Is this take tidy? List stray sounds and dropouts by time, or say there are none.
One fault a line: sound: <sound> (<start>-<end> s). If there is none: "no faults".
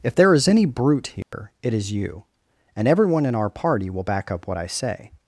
sound: dropout (1.2-1.3 s)